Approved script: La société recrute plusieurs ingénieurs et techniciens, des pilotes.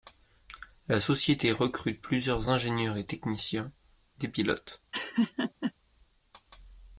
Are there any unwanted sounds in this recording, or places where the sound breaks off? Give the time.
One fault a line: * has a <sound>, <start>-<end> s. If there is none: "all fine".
* has a laugh, 4.9-5.7 s